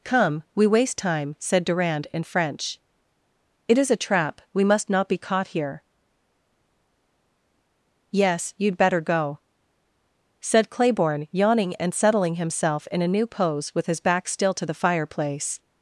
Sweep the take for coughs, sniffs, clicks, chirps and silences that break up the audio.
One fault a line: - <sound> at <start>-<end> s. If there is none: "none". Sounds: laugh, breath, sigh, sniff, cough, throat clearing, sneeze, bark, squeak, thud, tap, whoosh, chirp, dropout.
none